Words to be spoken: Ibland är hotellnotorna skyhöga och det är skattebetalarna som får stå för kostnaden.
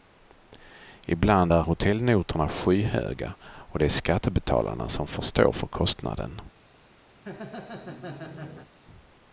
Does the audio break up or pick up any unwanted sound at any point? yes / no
yes